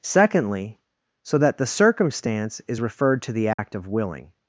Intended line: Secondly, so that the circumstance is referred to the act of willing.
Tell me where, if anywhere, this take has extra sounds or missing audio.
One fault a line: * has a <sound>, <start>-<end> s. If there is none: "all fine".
* has a dropout, 3.5-3.6 s